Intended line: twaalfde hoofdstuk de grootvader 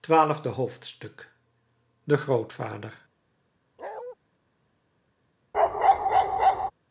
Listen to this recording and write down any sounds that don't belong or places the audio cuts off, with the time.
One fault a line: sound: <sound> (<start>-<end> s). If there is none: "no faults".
sound: bark (3.8-4.2 s)
sound: bark (5.5-6.7 s)